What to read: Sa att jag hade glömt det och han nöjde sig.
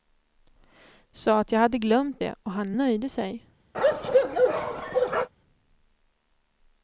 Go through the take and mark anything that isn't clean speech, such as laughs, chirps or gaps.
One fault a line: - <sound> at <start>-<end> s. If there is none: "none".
- bark at 3.7-5.3 s